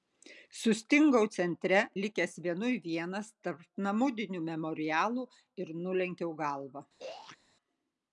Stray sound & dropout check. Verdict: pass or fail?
fail